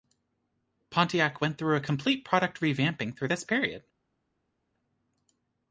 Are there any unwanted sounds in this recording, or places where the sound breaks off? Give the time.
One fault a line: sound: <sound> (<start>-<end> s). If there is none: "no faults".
no faults